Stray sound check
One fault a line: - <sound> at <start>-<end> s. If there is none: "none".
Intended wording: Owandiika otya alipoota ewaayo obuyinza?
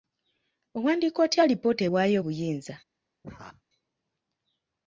- laugh at 3.2-3.6 s